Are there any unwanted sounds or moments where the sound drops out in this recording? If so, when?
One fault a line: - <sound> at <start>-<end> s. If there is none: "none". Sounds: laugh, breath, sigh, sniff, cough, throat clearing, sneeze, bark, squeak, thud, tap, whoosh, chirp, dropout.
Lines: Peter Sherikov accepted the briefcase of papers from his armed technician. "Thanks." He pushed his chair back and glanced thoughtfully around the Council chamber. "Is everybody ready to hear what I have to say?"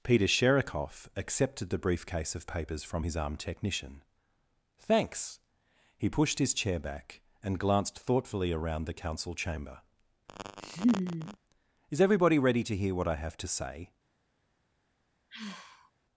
- laugh at 10.3-11.4 s
- sigh at 15.3-15.9 s